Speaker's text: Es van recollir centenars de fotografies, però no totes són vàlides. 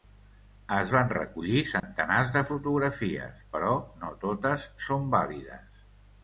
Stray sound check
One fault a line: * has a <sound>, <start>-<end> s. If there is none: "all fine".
* has a dropout, 1.8-1.8 s